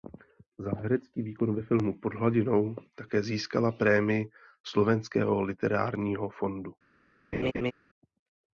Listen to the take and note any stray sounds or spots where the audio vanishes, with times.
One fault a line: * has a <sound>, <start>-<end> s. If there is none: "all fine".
* has a laugh, 7.3-7.7 s